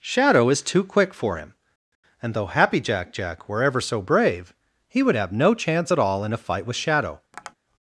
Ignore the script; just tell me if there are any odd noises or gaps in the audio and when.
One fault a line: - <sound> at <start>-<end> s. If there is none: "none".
- tap at 7.3-7.5 s